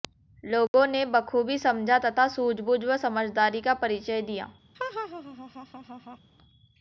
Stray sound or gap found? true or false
true